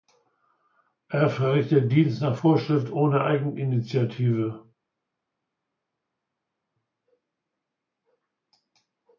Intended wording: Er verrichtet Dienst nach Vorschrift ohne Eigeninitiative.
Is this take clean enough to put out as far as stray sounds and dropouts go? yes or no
yes